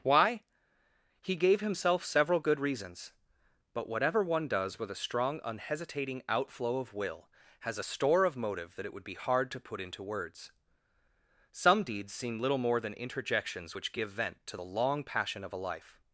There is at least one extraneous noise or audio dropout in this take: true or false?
false